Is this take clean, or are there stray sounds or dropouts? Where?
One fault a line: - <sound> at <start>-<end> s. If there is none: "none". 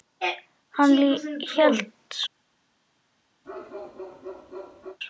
- bark at 3.4-5.0 s